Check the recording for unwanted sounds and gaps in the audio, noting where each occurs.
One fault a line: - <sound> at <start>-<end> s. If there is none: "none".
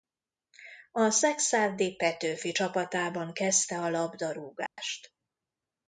- dropout at 4.7-4.8 s